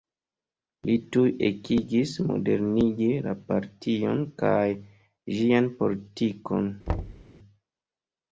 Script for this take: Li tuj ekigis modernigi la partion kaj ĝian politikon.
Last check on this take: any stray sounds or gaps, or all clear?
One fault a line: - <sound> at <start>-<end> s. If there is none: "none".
- thud at 6.9-7.3 s